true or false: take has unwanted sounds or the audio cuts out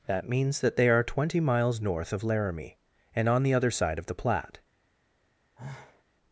true